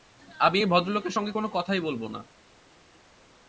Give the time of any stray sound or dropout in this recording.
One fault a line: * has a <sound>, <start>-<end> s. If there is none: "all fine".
all fine